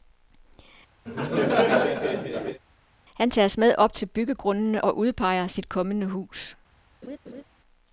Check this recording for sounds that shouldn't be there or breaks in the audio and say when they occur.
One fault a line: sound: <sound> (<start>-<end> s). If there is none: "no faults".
sound: laugh (1.1-2.6 s)
sound: laugh (7.0-7.4 s)